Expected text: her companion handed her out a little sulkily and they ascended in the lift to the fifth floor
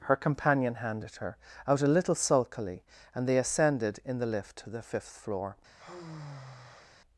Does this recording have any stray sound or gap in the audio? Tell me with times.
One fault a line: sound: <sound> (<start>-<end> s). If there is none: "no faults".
sound: sigh (5.8-6.9 s)